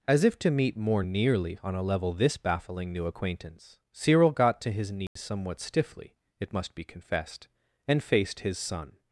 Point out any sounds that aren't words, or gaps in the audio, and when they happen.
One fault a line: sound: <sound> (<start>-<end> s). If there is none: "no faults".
sound: dropout (5.1-5.2 s)